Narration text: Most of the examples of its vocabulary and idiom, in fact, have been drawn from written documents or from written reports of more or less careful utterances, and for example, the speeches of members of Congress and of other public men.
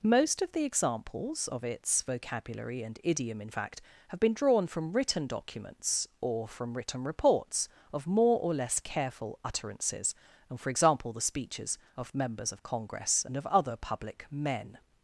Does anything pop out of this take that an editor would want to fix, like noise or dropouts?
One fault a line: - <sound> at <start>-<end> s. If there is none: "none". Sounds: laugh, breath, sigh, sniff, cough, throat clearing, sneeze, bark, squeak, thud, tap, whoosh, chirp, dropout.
none